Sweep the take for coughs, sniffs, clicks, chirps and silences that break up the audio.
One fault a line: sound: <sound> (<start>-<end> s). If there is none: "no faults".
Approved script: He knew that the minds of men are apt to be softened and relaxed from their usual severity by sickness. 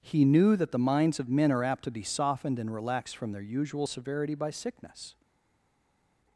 no faults